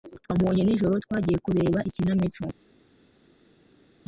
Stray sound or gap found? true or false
false